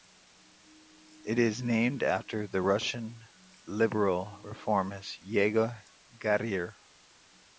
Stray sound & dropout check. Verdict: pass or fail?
pass